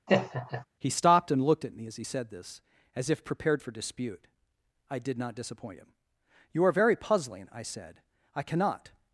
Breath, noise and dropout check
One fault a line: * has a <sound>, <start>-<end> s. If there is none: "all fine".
* has a laugh, 0.1-0.7 s